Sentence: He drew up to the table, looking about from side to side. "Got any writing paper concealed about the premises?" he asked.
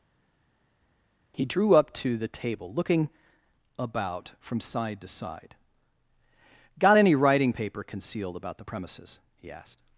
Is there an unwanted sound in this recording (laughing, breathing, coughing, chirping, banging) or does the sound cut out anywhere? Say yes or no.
no